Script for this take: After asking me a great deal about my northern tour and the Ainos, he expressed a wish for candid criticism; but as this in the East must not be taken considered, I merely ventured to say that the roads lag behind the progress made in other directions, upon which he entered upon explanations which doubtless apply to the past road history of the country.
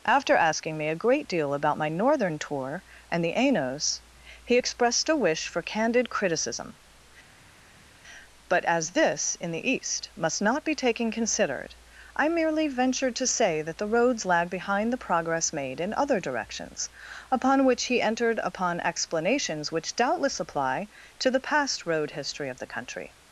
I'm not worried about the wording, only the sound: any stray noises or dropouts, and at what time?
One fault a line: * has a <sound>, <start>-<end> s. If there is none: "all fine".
all fine